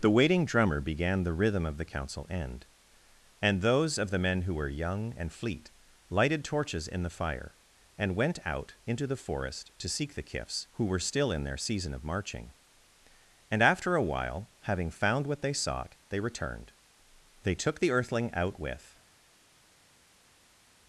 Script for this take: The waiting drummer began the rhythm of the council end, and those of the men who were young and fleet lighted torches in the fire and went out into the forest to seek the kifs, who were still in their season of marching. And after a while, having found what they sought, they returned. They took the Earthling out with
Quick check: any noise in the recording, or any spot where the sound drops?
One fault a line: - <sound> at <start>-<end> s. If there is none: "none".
none